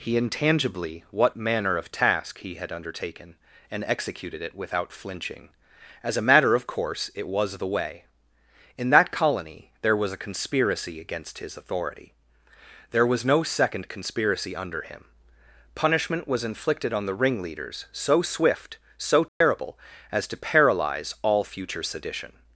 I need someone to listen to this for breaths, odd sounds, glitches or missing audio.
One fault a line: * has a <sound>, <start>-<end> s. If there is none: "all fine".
* has a dropout, 19.3-19.4 s